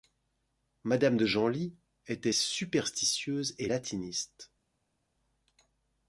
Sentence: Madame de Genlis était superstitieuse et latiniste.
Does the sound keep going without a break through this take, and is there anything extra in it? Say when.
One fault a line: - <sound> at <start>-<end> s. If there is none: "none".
none